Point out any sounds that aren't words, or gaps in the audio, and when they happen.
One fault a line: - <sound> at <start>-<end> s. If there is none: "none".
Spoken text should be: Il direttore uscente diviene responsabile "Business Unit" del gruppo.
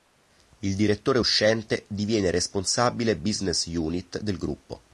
none